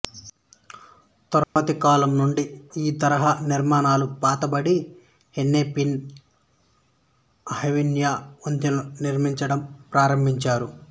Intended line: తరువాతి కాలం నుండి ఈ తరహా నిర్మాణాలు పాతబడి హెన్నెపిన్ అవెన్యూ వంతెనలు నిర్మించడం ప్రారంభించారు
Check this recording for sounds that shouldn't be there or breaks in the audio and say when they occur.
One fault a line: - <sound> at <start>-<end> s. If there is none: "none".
- dropout at 1.4-1.6 s